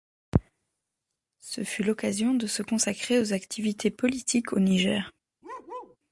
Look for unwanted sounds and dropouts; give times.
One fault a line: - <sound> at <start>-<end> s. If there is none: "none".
- bark at 5.4-6.0 s